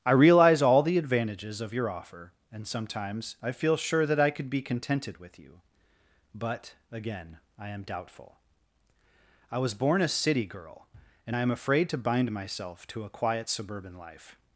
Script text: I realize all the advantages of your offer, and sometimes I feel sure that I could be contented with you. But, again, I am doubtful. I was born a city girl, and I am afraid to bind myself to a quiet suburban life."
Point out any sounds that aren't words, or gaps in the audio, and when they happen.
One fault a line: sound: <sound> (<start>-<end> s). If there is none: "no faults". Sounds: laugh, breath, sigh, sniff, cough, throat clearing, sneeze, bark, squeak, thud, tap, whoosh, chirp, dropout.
no faults